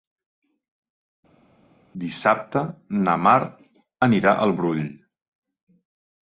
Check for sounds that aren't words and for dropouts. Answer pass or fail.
pass